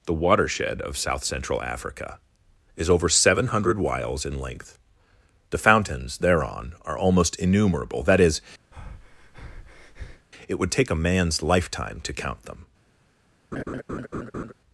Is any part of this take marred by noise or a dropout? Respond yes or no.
yes